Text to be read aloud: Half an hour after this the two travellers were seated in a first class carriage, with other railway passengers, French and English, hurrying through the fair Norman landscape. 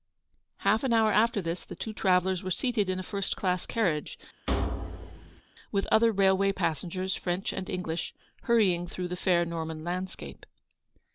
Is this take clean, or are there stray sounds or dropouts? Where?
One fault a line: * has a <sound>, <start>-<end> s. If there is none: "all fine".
* has a thud, 4.5-5.4 s